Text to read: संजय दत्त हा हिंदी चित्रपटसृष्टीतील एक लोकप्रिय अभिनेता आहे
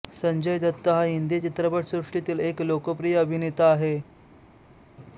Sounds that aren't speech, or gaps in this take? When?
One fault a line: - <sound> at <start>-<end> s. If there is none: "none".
none